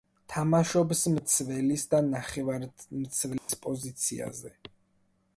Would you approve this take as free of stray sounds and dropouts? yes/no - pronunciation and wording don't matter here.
no